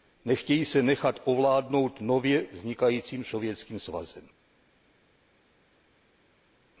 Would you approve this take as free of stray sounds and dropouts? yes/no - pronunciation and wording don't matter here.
yes